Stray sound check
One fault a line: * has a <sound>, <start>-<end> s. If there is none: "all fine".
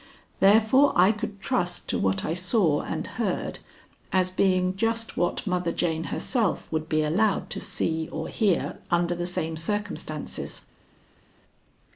all fine